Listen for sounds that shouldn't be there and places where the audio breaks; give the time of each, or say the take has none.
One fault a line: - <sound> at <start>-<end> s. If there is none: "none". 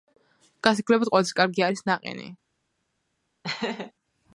- laugh at 3.4-3.9 s